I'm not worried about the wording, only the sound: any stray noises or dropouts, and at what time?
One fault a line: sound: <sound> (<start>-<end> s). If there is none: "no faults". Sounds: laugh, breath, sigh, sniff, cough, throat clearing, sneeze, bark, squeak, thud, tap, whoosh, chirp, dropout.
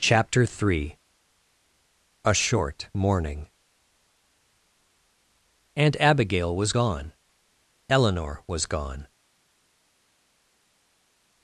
no faults